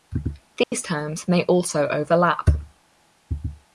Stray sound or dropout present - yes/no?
yes